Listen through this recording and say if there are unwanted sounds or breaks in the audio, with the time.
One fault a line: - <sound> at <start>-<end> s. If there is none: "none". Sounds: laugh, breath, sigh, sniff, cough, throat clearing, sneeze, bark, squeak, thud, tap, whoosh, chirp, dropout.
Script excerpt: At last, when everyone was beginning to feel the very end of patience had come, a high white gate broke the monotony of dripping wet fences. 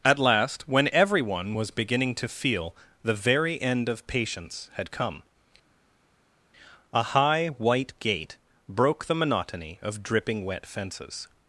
none